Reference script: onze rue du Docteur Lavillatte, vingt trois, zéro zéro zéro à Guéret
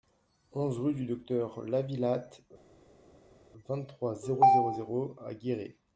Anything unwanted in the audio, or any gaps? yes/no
no